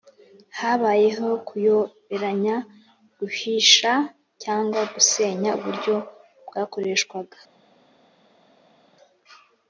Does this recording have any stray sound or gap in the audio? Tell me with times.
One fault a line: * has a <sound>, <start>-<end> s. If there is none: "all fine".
all fine